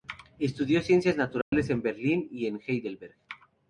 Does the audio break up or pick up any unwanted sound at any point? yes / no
yes